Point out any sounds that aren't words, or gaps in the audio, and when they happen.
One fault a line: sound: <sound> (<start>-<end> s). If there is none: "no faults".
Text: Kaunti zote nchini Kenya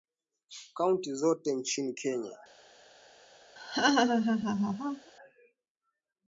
sound: laugh (3.6-5.1 s)